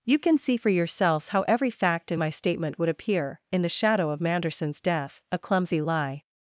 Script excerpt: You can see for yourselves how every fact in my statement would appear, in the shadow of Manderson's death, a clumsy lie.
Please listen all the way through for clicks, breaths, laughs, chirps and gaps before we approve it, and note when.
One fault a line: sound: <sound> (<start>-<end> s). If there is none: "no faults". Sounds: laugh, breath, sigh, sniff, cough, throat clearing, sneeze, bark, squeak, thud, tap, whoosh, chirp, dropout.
no faults